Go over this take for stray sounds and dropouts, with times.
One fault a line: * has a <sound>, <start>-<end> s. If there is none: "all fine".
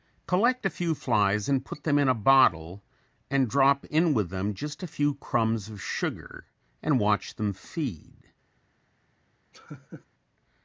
* has a laugh, 9.5-10.1 s